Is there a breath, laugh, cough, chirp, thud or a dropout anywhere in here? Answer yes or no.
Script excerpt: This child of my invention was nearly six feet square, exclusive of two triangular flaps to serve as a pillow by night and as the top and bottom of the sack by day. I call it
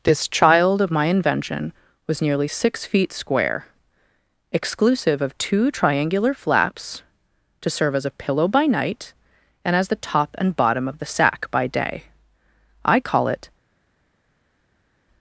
no